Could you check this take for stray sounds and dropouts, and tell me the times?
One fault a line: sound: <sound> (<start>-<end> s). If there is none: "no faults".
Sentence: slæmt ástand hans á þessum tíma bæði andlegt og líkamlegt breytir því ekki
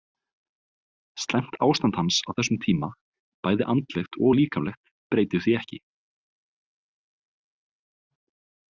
no faults